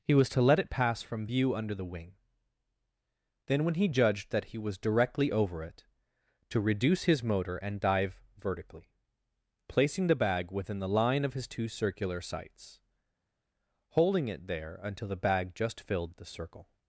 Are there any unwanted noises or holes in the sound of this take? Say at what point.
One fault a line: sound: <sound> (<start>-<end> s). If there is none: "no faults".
no faults